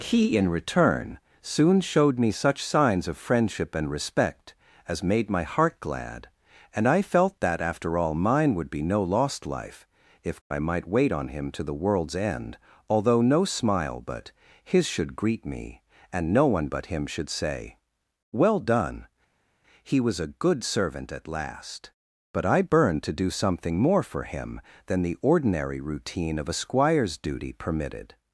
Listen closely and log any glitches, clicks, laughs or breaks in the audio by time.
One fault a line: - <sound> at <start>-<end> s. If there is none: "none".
none